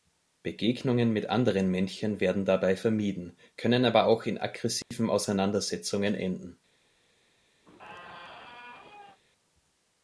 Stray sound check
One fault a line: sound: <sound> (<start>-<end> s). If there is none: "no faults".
sound: dropout (4.8-4.9 s)
sound: squeak (7.6-9.2 s)